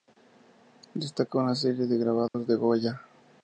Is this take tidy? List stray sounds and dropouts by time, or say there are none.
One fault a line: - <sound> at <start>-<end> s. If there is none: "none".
- dropout at 2.3-2.3 s